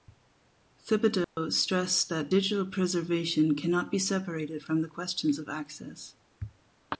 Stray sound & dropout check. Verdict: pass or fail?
fail